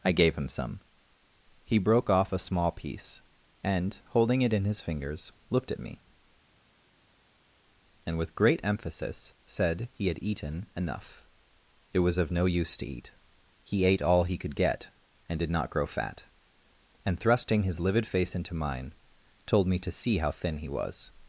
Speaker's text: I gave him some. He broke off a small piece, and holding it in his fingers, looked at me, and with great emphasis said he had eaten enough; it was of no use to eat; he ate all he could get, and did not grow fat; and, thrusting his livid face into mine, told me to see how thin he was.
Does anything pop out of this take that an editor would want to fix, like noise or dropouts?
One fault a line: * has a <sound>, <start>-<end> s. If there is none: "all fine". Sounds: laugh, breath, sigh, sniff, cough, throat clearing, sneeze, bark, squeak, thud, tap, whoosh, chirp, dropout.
all fine